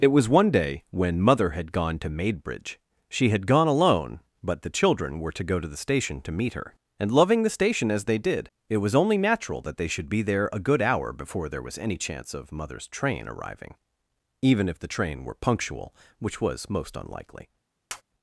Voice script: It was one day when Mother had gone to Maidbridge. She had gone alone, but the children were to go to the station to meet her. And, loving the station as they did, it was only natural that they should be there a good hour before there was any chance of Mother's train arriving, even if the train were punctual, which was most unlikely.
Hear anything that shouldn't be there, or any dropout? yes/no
yes